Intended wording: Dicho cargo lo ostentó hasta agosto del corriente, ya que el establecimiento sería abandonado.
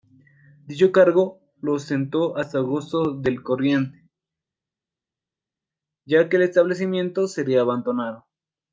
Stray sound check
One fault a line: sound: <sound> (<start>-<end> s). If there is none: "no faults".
no faults